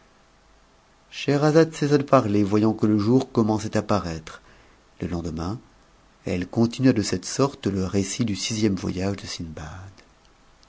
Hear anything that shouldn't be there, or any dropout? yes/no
no